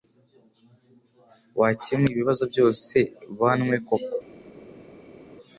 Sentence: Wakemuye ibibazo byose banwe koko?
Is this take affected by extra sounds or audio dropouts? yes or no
no